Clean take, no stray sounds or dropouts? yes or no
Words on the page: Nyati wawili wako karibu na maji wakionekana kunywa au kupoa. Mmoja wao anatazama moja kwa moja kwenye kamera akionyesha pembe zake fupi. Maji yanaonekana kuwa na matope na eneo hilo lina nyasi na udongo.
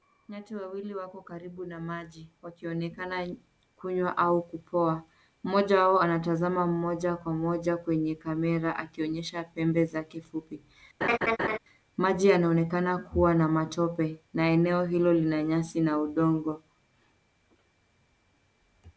no